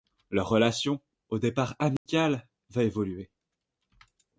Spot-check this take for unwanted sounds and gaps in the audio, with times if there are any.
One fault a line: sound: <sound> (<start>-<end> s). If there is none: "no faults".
sound: dropout (2.0-2.1 s)